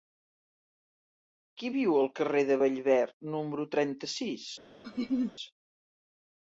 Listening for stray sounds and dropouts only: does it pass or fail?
fail